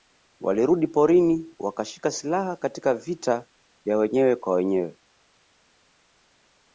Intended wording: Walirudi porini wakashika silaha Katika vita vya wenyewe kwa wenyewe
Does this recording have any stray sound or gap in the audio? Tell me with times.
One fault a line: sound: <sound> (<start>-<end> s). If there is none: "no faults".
no faults